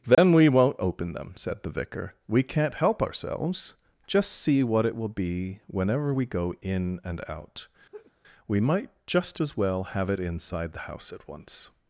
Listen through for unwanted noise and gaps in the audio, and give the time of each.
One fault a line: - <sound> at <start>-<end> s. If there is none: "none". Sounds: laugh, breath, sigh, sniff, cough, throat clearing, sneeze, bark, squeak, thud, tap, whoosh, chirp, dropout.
- dropout at 0.1-0.2 s
- laugh at 7.9-8.1 s